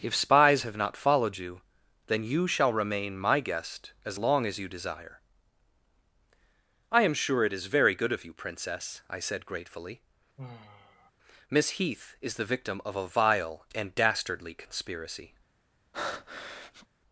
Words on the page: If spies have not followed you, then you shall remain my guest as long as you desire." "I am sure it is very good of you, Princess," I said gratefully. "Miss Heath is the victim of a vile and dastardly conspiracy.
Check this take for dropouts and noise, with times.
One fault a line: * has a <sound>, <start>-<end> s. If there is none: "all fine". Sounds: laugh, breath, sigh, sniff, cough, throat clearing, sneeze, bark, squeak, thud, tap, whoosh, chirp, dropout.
* has a sigh, 10.4-11.1 s
* has a breath, 15.9-16.9 s